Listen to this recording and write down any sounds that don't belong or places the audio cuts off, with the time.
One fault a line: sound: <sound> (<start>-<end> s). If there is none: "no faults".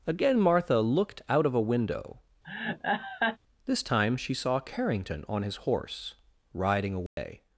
sound: laugh (2.4-3.4 s)
sound: dropout (7.1-7.2 s)